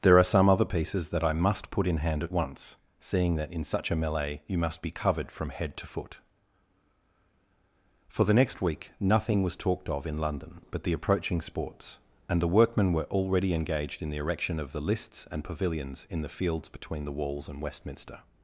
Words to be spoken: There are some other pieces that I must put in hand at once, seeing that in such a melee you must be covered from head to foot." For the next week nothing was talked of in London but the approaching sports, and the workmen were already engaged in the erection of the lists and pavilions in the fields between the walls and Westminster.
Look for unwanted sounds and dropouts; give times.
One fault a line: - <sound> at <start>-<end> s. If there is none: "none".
none